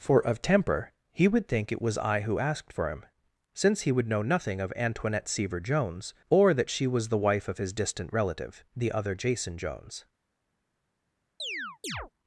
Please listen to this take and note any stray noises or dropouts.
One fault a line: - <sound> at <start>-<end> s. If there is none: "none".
- chirp at 11.4-12.1 s